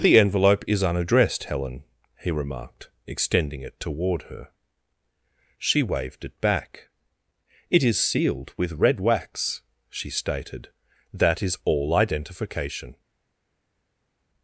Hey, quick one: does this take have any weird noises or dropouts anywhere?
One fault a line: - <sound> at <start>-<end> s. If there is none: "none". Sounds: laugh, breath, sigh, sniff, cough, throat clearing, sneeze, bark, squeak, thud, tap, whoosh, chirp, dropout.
none